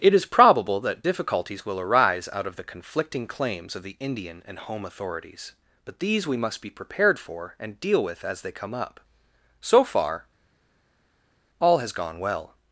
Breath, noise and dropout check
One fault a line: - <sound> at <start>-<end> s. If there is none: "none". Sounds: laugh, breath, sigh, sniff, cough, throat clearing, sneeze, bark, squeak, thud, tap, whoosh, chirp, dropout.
none